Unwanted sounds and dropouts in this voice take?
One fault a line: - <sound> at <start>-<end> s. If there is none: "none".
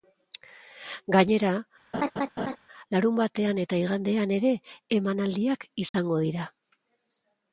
- laugh at 1.9-2.6 s
- dropout at 5.9-5.9 s